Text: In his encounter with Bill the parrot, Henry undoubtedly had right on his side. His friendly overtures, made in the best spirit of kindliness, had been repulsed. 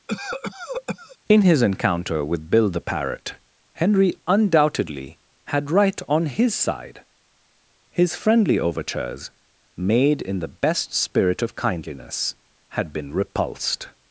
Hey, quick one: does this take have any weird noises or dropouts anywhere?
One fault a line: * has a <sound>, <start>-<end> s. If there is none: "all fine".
* has a cough, 0.1-1.2 s